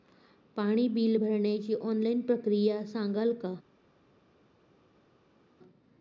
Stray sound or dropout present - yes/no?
no